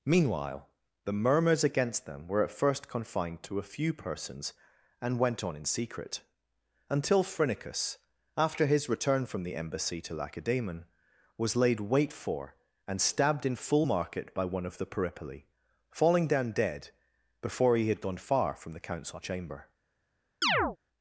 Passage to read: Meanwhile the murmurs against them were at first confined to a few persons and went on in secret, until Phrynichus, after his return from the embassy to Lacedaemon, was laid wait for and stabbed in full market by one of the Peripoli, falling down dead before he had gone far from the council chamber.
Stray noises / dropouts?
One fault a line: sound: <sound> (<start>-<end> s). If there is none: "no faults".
sound: chirp (20.4-20.8 s)